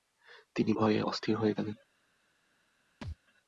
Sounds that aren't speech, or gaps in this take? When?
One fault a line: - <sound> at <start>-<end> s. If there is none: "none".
- thud at 3.0-3.2 s